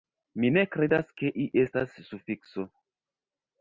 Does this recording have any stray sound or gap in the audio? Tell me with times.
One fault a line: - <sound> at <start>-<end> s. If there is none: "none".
none